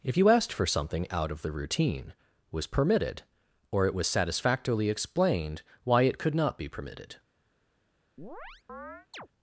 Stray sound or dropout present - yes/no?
yes